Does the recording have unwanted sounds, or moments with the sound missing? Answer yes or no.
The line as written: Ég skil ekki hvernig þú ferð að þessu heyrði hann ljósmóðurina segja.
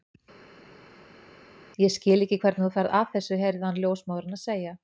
no